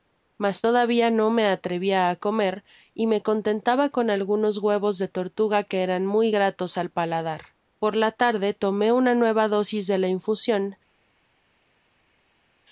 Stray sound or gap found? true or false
false